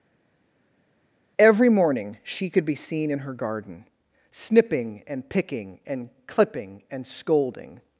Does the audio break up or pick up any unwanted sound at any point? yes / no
no